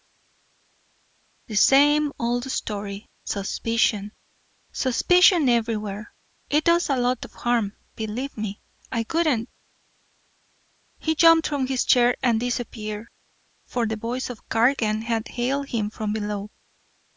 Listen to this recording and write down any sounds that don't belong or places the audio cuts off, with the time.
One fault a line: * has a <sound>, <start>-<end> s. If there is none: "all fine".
all fine